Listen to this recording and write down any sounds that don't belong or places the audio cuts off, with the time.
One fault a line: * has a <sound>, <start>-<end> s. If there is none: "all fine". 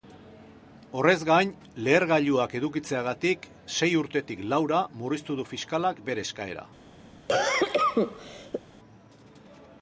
* has a cough, 7.3-8.6 s